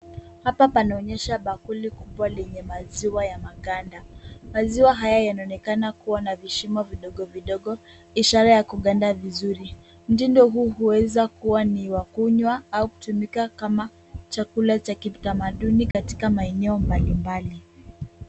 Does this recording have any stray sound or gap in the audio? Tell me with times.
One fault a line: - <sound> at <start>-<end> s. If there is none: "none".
- dropout at 15.9-15.9 s